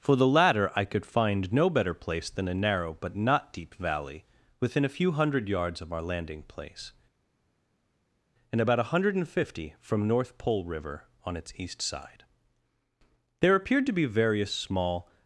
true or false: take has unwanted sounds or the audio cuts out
false